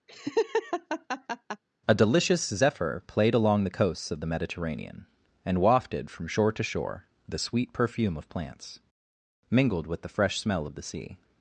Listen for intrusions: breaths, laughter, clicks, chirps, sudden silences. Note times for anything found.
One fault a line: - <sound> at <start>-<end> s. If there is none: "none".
- laugh at 0.1-1.6 s